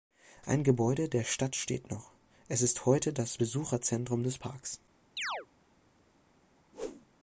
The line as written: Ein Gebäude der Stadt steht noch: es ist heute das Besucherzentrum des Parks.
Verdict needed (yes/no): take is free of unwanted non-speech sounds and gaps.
no